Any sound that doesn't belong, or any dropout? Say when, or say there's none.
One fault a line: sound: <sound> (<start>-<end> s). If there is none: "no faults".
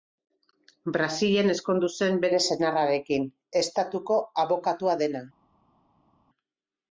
no faults